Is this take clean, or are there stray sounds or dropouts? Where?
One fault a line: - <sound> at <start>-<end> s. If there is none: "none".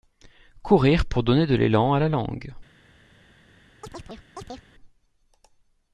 - chirp at 3.8-4.6 s